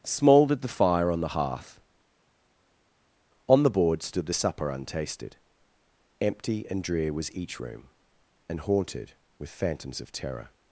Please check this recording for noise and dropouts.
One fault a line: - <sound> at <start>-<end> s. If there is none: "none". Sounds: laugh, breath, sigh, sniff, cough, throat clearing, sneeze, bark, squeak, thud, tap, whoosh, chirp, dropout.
none